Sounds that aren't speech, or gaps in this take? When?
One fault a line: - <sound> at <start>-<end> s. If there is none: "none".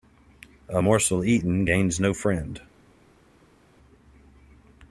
none